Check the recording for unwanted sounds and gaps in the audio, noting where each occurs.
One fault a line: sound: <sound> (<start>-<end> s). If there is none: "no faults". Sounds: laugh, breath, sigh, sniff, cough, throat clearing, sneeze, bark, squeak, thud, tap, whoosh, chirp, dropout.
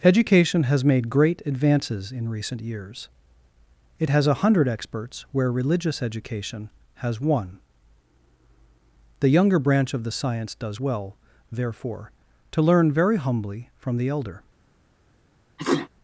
sound: sneeze (15.6-15.9 s)